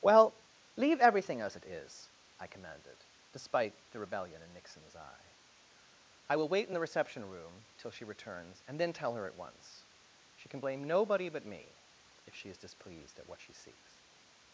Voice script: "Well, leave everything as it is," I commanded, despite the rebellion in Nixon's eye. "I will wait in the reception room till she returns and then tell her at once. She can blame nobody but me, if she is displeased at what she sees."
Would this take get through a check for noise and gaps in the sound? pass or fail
pass